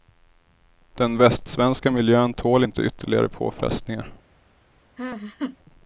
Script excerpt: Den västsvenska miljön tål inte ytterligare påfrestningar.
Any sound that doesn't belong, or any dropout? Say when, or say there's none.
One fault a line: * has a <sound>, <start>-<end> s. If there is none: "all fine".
* has a laugh, 5.0-5.6 s